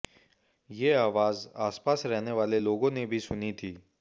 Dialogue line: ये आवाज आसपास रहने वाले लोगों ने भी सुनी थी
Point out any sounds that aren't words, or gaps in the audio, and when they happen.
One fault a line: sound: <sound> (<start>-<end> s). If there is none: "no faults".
no faults